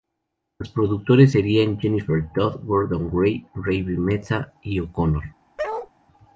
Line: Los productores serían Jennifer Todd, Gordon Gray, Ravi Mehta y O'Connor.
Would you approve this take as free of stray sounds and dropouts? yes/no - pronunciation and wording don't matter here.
no